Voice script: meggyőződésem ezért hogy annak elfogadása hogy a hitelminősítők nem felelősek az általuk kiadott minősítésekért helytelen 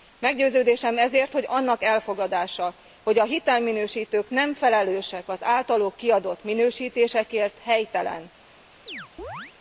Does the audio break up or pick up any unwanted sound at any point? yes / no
yes